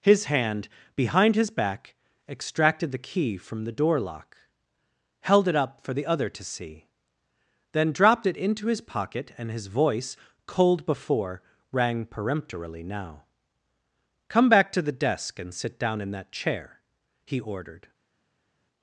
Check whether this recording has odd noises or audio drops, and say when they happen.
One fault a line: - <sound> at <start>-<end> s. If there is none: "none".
none